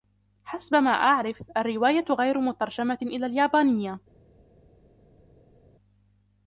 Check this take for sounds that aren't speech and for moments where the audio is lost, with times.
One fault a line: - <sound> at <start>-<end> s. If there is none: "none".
none